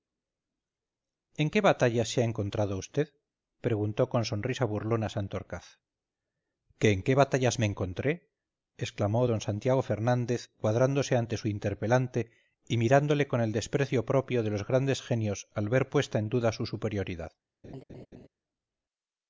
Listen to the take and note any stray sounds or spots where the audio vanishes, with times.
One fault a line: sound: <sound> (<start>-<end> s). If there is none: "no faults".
sound: laugh (17.6-18.3 s)